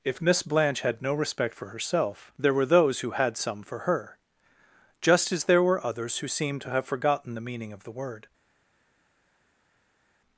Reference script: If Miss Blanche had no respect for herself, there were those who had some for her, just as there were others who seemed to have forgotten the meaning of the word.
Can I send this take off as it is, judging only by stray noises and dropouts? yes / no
yes